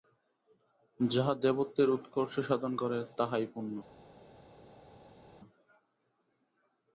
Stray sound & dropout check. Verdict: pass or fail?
pass